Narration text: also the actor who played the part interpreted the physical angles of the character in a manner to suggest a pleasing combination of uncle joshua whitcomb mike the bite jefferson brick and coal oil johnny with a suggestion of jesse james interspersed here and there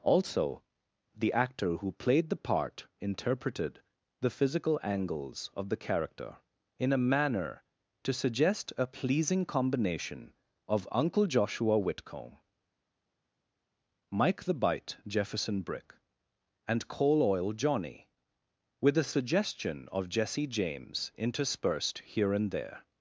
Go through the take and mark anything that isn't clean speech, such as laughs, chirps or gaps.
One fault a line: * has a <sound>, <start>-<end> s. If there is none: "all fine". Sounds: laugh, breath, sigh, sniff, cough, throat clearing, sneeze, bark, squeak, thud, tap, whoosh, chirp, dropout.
all fine